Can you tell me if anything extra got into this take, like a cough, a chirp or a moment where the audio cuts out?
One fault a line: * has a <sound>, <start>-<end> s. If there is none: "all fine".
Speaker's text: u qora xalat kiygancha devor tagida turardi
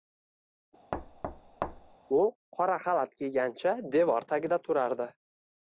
* has a thud, 0.9-2.0 s